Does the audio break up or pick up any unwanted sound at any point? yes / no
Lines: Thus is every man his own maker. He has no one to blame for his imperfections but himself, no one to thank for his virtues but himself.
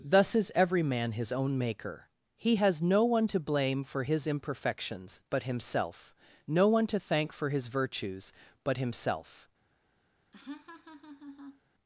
yes